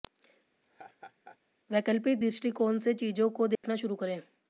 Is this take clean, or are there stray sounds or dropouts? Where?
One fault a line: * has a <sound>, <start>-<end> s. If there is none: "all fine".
* has a laugh, 0.6-1.4 s
* has a dropout, 3.5-3.6 s